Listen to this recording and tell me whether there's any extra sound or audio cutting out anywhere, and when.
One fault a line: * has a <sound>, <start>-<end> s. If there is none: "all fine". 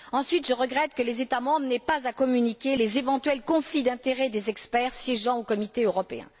all fine